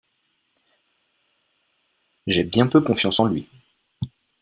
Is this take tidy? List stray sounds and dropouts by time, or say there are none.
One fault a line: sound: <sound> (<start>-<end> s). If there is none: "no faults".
no faults